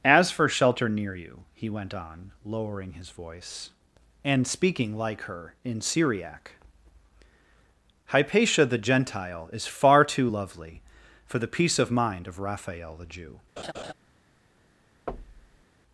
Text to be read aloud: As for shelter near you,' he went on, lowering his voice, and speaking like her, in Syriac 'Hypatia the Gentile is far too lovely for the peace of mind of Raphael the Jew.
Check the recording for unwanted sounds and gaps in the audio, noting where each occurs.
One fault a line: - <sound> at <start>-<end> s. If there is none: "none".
- laugh at 13.6-13.9 s
- thud at 15.1-15.7 s